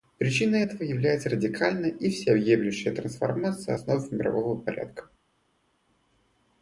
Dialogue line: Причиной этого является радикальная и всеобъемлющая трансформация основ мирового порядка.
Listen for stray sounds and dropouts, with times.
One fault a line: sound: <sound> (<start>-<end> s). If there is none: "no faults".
no faults